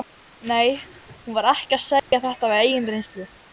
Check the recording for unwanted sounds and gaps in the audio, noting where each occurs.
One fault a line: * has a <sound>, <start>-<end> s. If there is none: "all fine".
* has a dropout, 2.0-2.1 s